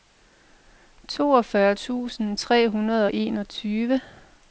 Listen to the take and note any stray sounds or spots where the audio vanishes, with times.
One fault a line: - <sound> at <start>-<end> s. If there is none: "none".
none